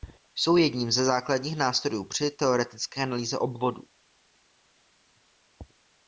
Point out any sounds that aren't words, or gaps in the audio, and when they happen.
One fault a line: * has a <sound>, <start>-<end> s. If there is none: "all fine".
all fine